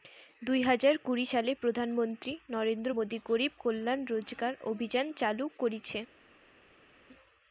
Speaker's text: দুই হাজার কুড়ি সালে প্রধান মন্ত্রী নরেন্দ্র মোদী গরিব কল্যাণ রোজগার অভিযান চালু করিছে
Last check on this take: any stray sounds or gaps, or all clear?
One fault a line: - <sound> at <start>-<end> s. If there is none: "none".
none